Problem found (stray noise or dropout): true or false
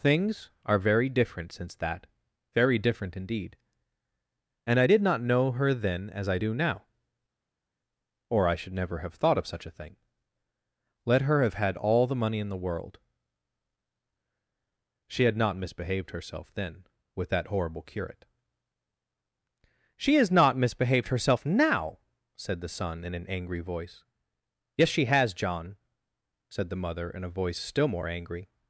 false